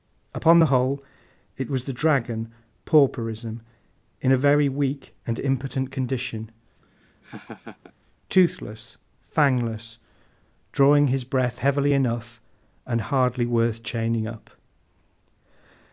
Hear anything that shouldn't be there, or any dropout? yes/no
yes